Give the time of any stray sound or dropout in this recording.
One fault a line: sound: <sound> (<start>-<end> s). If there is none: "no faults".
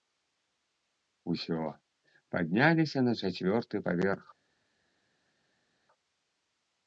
no faults